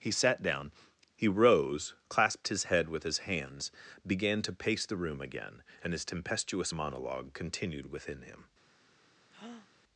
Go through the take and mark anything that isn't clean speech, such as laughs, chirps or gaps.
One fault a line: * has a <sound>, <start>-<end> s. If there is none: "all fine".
* has a breath, 9.3-9.7 s